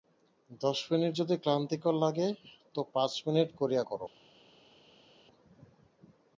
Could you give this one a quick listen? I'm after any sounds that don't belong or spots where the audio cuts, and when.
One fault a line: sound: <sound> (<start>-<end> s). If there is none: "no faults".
no faults